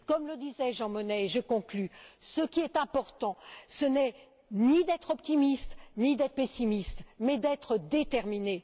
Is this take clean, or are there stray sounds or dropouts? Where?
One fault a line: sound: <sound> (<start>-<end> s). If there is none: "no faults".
no faults